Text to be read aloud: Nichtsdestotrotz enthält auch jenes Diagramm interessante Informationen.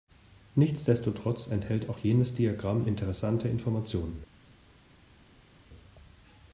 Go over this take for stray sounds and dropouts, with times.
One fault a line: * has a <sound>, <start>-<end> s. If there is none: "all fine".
all fine